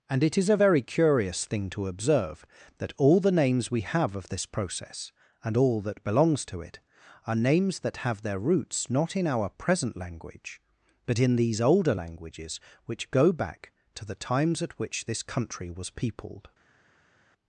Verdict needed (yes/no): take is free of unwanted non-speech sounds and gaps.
yes